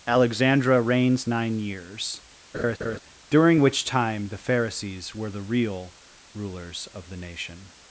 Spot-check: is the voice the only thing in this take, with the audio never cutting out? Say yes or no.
no